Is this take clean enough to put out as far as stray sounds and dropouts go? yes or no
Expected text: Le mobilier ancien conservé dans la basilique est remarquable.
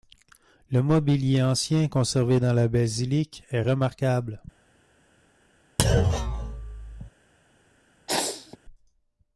no